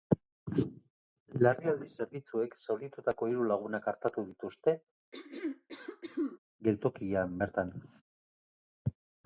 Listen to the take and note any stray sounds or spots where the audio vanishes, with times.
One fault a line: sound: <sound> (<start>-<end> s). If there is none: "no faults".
sound: throat clearing (5.1-6.4 s)